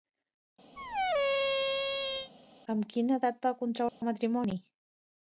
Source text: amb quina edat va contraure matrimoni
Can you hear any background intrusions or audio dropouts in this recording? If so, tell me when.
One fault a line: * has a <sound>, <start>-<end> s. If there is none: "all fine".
* has a squeak, 0.8-2.3 s
* has a dropout, 3.9-4.0 s